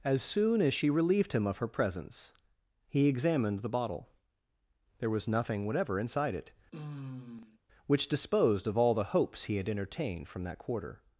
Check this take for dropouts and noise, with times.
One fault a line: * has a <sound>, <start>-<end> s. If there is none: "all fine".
* has a sigh, 6.7-7.6 s